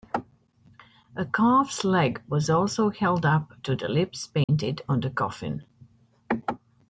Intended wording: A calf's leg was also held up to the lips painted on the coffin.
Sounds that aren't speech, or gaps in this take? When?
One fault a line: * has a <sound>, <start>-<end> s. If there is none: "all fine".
* has a dropout, 4.4-4.5 s